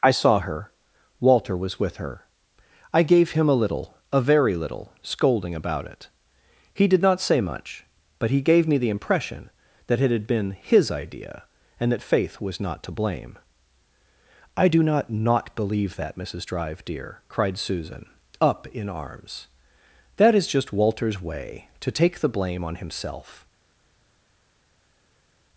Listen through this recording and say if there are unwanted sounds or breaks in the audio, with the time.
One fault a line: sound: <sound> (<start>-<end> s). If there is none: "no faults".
no faults